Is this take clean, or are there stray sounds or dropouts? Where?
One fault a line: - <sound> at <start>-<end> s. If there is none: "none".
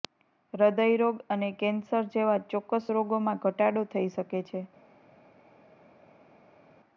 none